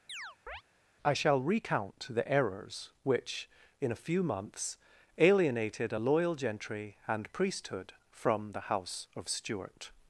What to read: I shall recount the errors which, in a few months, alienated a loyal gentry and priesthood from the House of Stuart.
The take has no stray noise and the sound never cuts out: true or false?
false